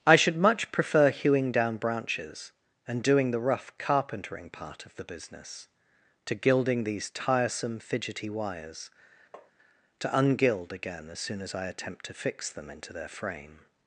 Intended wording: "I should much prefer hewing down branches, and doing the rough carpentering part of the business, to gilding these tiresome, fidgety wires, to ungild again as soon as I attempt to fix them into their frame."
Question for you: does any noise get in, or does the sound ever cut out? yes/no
yes